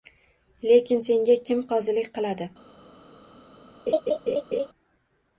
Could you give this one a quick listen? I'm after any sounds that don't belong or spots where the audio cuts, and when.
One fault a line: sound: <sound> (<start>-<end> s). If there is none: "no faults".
sound: laugh (3.9-4.7 s)